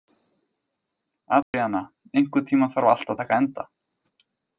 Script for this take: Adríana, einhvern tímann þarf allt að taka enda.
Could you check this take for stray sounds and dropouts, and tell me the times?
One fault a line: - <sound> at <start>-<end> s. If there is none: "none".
- dropout at 1.4-1.5 s